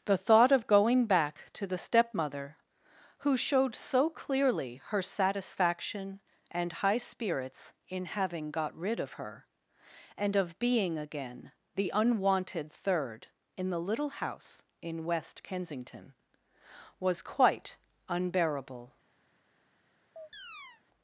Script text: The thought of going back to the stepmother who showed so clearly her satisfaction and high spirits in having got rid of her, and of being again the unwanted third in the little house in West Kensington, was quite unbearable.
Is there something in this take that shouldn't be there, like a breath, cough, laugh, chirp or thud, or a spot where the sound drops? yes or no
yes